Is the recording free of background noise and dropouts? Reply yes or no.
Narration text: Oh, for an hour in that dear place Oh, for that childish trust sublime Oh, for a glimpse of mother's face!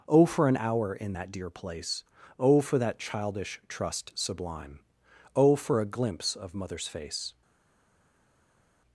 yes